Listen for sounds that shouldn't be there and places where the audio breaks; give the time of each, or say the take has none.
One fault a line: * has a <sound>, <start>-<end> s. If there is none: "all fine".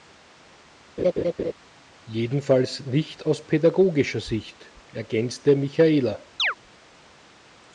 * has a laugh, 1.0-1.5 s
* has a chirp, 6.4-6.5 s